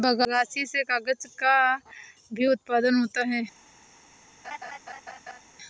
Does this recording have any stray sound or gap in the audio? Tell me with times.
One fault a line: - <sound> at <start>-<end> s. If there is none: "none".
- laugh at 4.4-5.4 s